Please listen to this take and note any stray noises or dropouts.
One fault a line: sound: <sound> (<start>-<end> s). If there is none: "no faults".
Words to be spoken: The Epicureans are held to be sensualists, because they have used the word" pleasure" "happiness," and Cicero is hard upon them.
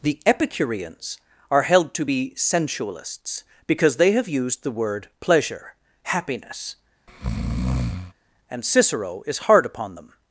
sound: breath (7.1-8.1 s)